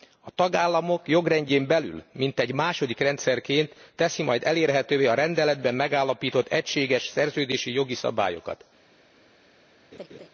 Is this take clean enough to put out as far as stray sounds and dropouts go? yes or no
no